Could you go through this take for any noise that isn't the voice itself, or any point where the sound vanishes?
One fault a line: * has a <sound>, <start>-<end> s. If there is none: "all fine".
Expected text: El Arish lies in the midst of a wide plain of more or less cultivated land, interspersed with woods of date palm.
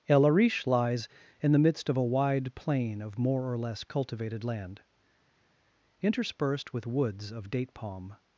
all fine